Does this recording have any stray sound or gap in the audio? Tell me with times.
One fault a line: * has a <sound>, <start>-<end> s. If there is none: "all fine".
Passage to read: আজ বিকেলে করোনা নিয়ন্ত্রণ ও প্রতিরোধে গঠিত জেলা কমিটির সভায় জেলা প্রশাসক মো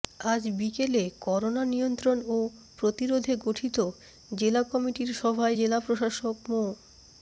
all fine